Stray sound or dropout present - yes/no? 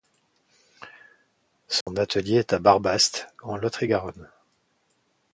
yes